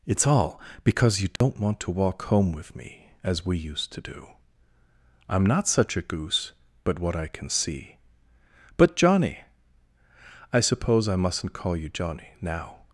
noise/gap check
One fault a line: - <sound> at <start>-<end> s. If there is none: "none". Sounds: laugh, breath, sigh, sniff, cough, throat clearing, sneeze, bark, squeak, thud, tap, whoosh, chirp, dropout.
- dropout at 1.4-1.4 s